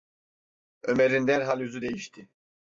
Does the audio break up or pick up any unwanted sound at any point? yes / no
no